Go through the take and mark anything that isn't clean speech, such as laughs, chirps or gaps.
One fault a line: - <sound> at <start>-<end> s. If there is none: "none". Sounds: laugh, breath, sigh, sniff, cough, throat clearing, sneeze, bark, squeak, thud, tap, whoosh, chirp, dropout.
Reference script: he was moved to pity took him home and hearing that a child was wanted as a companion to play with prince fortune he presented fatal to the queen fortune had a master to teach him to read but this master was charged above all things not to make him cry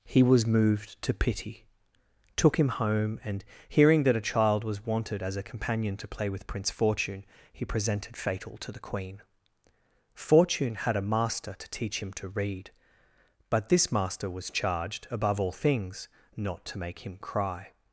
none